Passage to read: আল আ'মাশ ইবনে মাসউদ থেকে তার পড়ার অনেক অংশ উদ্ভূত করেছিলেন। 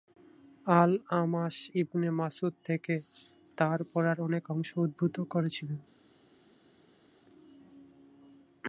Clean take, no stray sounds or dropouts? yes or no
yes